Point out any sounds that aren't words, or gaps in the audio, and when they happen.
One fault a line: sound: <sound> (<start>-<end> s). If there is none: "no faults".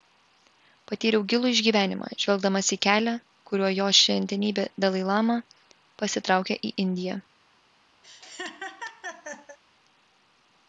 sound: laugh (8.0-9.6 s)